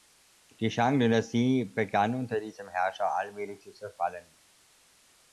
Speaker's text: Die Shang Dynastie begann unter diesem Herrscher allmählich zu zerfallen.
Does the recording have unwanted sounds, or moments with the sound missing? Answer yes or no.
no